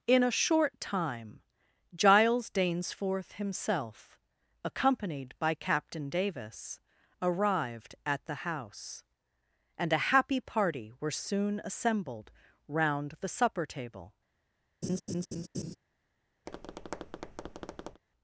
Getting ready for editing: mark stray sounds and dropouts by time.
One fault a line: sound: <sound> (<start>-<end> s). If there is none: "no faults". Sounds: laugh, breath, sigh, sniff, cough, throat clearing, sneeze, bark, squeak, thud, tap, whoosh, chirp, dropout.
sound: laugh (14.8-15.8 s)
sound: tap (16.5-18.0 s)